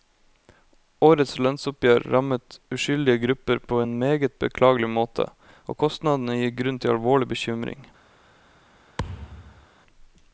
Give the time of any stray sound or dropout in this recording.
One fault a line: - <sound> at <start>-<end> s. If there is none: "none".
- thud at 9.0-9.7 s